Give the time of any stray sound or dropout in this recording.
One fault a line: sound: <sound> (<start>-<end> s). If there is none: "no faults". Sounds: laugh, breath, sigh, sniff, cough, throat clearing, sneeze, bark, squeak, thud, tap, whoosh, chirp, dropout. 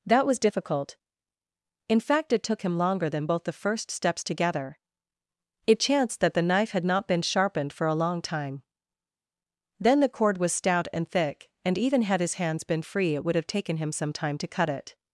no faults